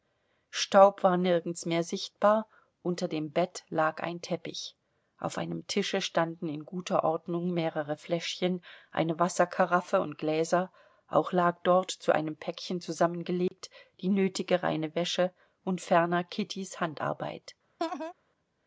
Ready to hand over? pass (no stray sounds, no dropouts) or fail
fail